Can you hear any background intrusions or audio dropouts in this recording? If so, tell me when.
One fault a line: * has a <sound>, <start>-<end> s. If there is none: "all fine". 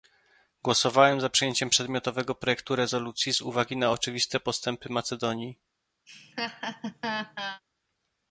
* has a laugh, 6.1-7.6 s